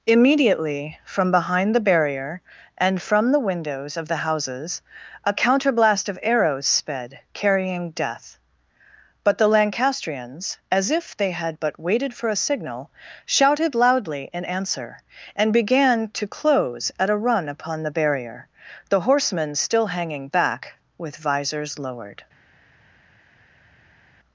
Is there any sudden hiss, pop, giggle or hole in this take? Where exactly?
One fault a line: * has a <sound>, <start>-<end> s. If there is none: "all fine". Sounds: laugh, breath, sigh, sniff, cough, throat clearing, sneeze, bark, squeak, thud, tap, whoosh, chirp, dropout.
all fine